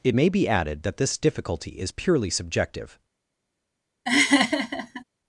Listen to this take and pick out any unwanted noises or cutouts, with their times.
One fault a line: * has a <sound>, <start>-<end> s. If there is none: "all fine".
* has a laugh, 4.1-5.0 s